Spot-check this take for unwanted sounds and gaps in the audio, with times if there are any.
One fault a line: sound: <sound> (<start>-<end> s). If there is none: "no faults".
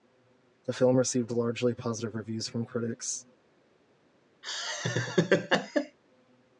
sound: laugh (4.4-6.0 s)